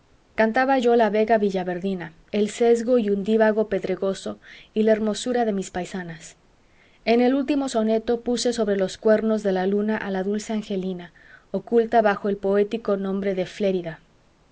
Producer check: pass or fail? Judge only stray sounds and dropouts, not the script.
pass